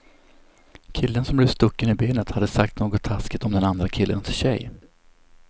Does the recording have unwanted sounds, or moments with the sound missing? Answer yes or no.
no